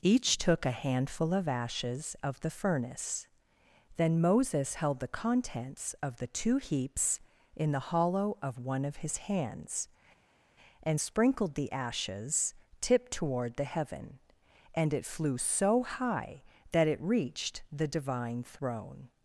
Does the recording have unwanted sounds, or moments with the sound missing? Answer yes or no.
no